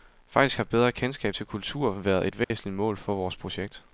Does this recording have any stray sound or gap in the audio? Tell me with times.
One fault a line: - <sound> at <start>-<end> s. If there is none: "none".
- dropout at 2.4-2.5 s